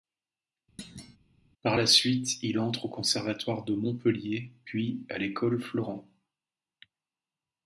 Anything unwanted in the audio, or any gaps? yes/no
yes